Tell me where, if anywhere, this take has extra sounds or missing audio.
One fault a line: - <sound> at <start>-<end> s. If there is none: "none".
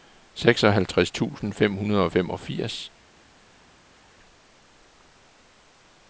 none